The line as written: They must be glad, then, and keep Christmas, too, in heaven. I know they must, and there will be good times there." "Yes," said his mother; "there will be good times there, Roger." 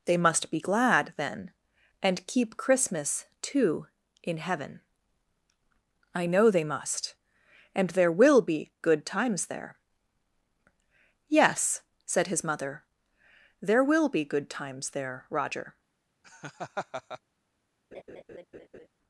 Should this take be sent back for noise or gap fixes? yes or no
yes